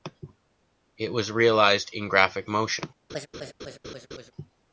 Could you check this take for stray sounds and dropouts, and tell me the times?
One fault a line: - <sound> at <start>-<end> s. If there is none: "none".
- laugh at 3.1-4.3 s